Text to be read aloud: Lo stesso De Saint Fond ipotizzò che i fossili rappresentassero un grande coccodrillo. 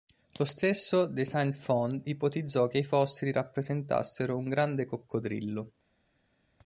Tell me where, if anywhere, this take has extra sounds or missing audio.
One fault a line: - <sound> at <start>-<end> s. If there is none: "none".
none